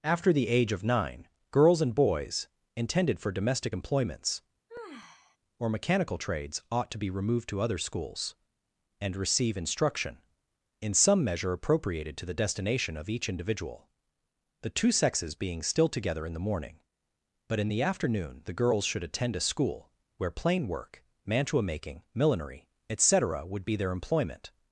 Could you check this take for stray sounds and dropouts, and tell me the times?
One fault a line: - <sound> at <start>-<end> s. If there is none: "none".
- sigh at 4.7-5.4 s